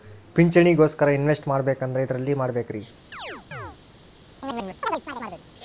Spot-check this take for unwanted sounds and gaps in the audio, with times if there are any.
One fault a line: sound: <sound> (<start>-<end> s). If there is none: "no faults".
sound: chirp (3.1-3.8 s)
sound: chirp (4.4-5.5 s)